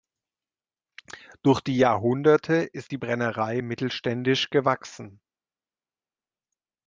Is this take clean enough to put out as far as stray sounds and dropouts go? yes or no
yes